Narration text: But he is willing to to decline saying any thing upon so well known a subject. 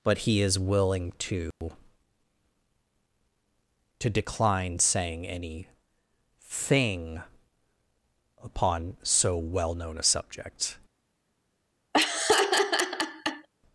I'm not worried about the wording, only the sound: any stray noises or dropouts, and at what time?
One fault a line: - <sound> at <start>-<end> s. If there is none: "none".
- dropout at 1.5-1.6 s
- laugh at 11.9-13.5 s